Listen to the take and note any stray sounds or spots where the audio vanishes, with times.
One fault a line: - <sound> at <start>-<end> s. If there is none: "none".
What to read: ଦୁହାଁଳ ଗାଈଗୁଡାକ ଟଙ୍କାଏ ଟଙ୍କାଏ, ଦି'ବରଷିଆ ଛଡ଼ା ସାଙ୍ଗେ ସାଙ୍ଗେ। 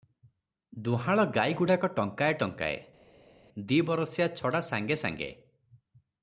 none